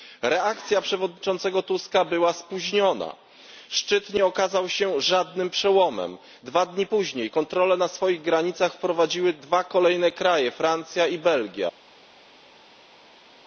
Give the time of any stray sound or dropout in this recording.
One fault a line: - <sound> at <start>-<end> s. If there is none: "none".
none